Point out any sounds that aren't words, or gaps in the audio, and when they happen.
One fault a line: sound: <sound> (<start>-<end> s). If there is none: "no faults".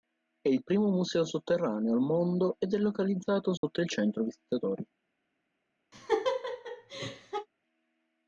sound: dropout (3.6-3.6 s)
sound: laugh (5.9-7.5 s)